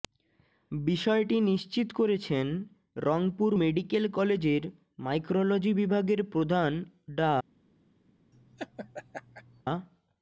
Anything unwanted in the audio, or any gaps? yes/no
yes